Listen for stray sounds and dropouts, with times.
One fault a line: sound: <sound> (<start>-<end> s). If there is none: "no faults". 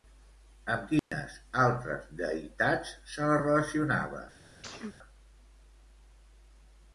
sound: dropout (1.0-1.1 s)
sound: sneeze (4.6-5.0 s)